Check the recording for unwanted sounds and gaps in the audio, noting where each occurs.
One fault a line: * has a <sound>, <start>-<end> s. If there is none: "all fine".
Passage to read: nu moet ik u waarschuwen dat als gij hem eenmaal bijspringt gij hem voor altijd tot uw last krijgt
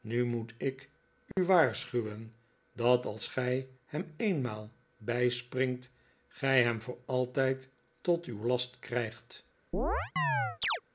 * has a dropout, 1.3-1.4 s
* has a chirp, 9.7-10.8 s